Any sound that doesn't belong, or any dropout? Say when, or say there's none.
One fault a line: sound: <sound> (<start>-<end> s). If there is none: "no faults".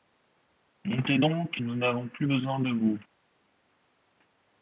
no faults